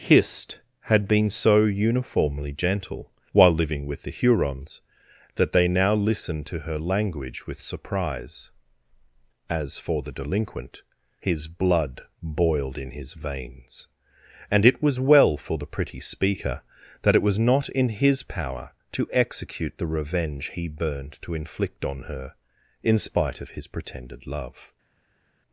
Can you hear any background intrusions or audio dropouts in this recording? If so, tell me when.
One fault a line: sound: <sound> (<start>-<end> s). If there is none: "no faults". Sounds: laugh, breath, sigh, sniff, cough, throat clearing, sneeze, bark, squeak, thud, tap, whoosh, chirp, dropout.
no faults